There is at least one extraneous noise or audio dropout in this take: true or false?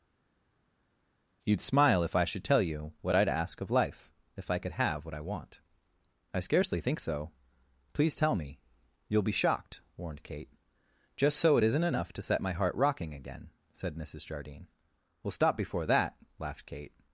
false